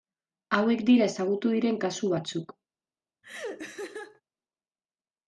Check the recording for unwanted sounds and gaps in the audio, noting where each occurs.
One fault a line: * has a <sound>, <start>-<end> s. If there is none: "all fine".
* has a laugh, 3.2-4.2 s